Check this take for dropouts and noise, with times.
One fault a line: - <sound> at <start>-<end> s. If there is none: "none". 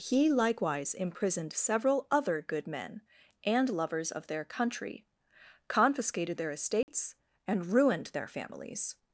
- dropout at 6.8-6.9 s